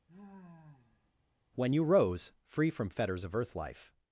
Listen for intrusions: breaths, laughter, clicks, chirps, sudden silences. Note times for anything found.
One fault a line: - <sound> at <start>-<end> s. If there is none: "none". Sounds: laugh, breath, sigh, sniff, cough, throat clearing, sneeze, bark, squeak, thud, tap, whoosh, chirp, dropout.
- sigh at 0.1-1.1 s